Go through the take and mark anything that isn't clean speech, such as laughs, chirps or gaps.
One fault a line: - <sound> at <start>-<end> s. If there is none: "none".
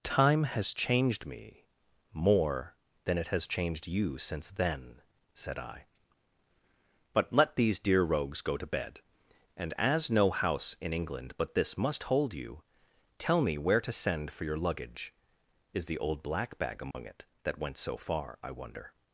- dropout at 16.9-16.9 s